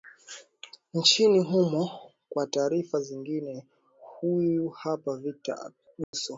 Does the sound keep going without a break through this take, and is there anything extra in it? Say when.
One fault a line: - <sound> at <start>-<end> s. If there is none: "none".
- dropout at 6.0-6.1 s